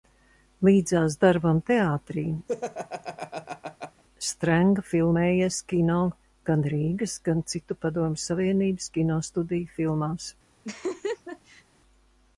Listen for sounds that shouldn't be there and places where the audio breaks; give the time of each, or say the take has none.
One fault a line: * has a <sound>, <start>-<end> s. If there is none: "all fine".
* has a laugh, 2.5-4.0 s
* has a laugh, 10.6-11.6 s